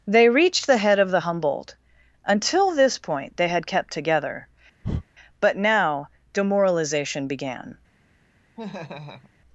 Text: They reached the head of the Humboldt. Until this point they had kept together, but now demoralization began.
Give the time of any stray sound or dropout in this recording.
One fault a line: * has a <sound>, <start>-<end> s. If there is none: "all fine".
* has a breath, 4.8-5.0 s
* has a laugh, 8.6-9.3 s